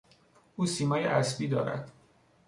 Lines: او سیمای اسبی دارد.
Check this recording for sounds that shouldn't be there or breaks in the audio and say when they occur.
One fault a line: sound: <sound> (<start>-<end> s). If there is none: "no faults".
no faults